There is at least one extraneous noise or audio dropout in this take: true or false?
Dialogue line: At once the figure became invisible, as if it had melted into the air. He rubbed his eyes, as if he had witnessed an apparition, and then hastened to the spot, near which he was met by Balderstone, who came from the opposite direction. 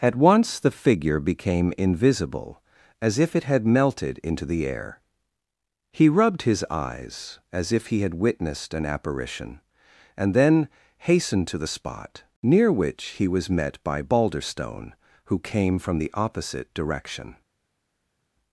false